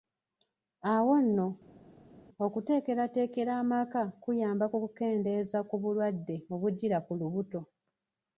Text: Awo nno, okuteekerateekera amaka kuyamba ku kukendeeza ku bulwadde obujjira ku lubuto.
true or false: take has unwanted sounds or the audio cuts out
false